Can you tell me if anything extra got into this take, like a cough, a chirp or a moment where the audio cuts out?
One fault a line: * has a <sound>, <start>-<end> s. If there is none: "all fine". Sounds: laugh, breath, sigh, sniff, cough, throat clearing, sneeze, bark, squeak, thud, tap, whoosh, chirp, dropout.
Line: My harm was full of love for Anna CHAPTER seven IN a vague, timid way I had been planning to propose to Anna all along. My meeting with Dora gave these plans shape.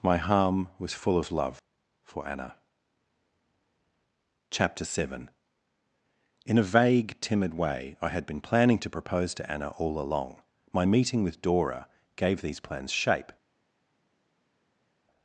all fine